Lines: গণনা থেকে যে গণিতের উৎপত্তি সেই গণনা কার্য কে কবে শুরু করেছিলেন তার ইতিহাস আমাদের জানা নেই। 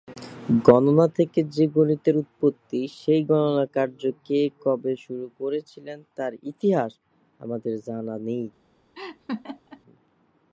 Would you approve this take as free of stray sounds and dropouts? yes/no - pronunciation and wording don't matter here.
no